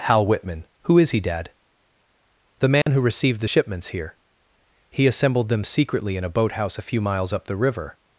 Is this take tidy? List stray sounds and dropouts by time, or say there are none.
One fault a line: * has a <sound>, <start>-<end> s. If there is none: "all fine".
* has a dropout, 2.8-2.9 s